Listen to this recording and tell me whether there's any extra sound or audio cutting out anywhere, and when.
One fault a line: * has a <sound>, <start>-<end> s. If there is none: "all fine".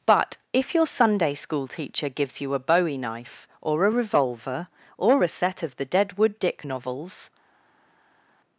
all fine